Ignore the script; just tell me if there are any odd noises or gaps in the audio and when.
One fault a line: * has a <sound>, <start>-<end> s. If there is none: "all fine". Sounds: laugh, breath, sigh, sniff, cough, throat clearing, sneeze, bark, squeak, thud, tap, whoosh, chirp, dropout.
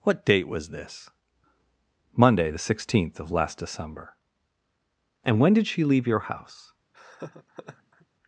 * has a laugh, 6.9-8.1 s